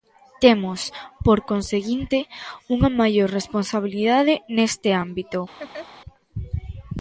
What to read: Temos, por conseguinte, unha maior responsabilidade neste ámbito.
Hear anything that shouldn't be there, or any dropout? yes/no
yes